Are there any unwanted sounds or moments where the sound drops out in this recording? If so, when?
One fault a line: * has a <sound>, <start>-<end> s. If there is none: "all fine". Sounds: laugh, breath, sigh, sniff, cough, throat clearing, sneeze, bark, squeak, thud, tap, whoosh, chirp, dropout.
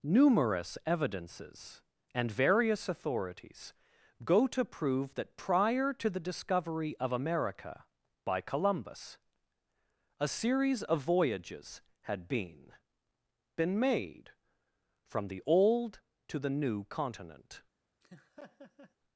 * has a laugh, 18.0-18.9 s